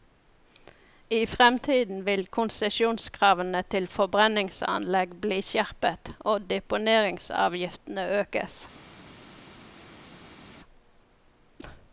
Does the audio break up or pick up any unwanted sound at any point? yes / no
no